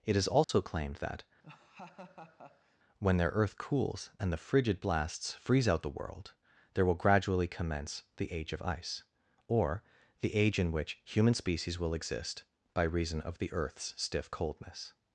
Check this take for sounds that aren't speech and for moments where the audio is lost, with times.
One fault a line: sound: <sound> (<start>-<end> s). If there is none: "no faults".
sound: dropout (0.4-0.5 s)
sound: laugh (1.4-2.8 s)